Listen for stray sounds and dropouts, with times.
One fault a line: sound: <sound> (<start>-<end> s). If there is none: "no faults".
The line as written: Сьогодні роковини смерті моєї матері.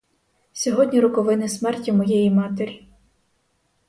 no faults